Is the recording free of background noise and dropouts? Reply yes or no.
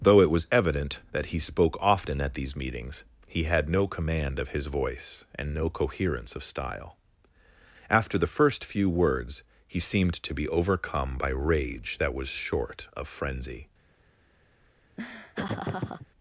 no